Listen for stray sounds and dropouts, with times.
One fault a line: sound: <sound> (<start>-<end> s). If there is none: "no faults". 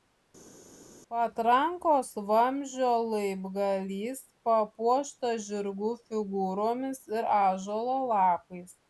no faults